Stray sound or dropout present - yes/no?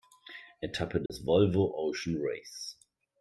yes